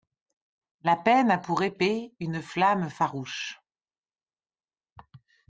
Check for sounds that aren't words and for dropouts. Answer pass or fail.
pass